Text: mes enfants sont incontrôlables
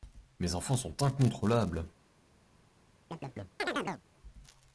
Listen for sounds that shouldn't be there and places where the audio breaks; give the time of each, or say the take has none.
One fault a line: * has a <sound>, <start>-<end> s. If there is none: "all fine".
* has a chirp, 3.1-4.0 s